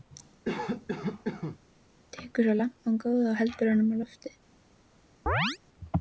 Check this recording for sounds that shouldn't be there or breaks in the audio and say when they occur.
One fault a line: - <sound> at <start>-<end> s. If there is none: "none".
- cough at 0.4-1.6 s
- chirp at 5.3-5.6 s